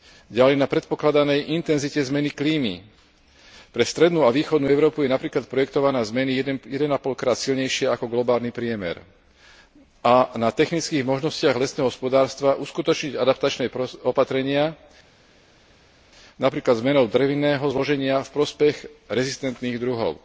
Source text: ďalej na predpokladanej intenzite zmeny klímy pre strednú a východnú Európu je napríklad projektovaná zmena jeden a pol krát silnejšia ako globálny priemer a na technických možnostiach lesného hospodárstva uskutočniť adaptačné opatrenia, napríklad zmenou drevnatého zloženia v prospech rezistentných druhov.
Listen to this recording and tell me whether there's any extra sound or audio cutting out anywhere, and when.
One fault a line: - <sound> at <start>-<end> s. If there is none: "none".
none